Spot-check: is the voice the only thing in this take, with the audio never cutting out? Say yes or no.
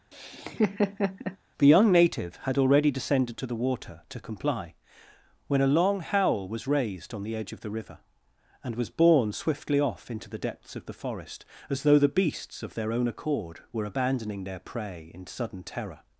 no